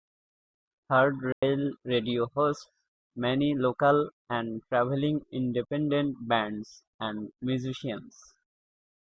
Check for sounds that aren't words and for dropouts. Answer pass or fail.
fail